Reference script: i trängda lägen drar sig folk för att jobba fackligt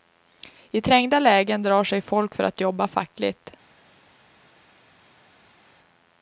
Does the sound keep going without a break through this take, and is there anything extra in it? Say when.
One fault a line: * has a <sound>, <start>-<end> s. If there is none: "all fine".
all fine